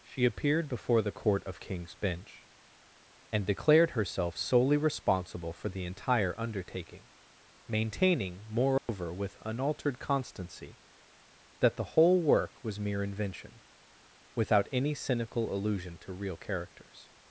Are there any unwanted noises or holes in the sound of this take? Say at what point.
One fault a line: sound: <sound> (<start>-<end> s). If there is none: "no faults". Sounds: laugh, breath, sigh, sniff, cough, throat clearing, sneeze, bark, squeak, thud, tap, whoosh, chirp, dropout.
sound: dropout (8.8-8.9 s)